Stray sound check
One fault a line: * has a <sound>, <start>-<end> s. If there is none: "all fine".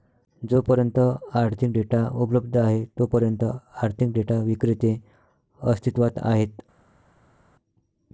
all fine